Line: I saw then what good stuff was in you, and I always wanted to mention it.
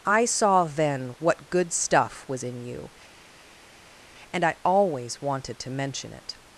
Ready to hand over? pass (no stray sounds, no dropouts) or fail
pass